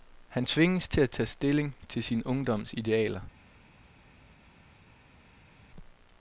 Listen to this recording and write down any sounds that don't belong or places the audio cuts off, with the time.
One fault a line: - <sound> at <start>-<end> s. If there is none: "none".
none